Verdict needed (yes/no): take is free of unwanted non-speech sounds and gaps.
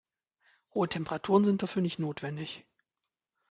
yes